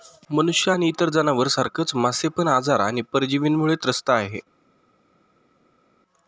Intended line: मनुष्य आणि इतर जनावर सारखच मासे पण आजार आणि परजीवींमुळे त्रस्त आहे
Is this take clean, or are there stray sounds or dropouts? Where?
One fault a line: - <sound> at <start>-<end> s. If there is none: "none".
none